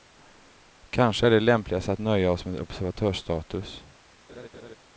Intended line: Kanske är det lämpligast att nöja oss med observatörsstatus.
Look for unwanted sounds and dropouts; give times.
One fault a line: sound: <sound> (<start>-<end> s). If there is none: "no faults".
sound: laugh (4.3-4.8 s)